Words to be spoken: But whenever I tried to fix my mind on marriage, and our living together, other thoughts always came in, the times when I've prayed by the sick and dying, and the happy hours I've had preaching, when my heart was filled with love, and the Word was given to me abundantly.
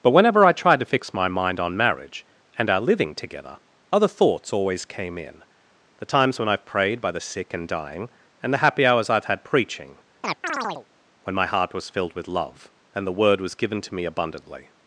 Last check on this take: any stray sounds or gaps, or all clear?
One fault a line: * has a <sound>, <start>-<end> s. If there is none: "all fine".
* has a chirp, 10.2-10.9 s